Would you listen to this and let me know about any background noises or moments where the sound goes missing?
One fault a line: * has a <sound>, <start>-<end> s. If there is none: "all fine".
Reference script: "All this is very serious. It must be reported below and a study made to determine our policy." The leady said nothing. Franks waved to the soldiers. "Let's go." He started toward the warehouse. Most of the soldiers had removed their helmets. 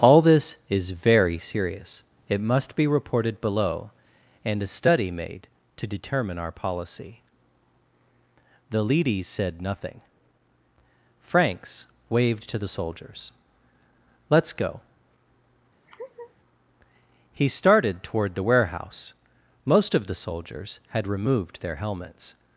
* has a laugh, 15.9-16.3 s